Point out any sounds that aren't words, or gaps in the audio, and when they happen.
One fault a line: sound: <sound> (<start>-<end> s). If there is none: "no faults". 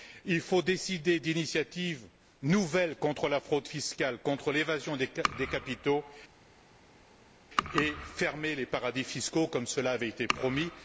no faults